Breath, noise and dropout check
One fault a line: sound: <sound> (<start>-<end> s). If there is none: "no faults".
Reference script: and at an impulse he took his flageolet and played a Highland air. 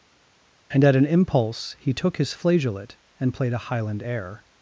no faults